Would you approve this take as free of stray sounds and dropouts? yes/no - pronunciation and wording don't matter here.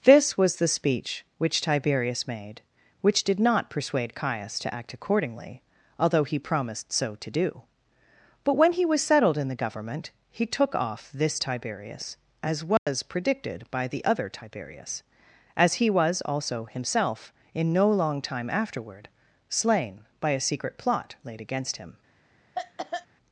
no